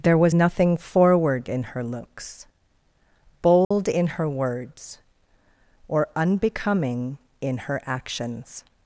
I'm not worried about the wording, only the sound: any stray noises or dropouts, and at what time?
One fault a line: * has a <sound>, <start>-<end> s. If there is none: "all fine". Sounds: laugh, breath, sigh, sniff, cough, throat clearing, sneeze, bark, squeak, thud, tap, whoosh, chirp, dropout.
* has a dropout, 3.6-3.7 s